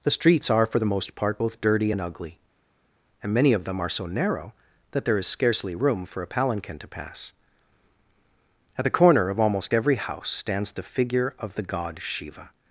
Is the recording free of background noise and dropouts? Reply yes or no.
yes